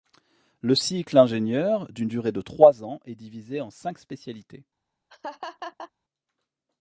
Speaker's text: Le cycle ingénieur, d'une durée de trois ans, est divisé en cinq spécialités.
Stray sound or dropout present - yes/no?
yes